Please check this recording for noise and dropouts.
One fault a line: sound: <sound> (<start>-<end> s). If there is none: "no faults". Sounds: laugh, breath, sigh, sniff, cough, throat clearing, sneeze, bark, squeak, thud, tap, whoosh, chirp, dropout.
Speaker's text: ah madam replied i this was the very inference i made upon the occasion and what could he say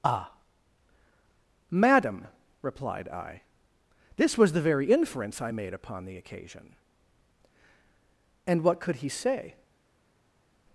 no faults